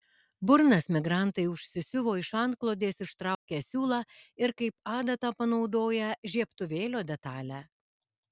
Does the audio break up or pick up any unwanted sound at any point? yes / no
yes